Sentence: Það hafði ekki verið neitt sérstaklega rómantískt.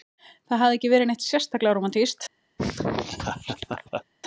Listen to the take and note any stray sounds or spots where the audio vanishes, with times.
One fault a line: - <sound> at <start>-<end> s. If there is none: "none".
- laugh at 2.6-4.0 s